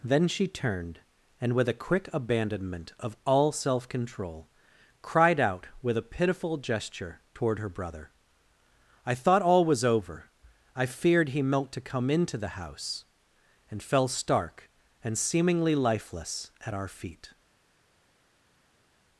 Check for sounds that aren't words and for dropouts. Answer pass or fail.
pass